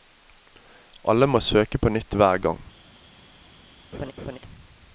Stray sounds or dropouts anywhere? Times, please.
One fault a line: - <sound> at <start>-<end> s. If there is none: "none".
- laugh at 3.9-4.4 s